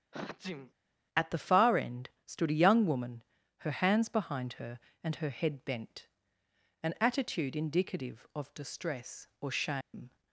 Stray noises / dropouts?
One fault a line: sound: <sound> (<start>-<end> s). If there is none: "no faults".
sound: sniff (0.1-0.7 s)
sound: dropout (9.8-9.9 s)